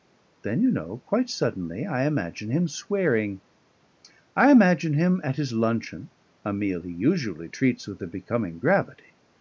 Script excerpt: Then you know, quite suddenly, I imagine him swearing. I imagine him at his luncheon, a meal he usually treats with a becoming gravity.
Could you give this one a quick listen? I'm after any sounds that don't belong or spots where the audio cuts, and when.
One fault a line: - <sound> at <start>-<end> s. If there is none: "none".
none